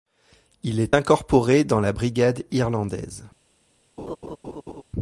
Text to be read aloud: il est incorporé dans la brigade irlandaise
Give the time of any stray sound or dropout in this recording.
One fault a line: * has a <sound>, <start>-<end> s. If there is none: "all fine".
* has a laugh, 4.0-4.8 s